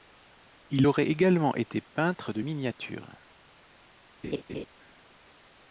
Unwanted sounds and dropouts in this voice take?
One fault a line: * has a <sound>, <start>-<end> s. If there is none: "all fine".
* has a laugh, 4.2-4.7 s